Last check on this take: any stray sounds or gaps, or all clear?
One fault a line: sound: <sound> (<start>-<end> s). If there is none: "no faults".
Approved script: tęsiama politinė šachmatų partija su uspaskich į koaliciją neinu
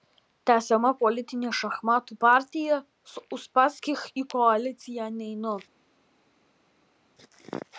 no faults